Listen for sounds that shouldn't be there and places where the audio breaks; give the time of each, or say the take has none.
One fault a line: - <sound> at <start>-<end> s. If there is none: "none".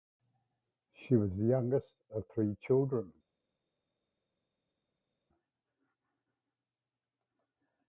none